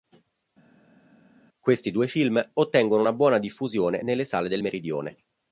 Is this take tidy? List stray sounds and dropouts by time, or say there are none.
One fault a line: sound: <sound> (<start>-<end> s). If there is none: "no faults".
no faults